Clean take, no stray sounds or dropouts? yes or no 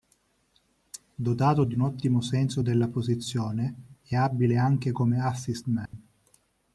no